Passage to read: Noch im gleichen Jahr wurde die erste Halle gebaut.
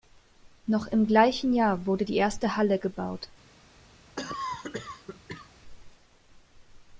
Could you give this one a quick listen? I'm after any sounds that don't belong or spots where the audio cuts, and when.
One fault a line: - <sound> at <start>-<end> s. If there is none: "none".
- cough at 4.2-5.5 s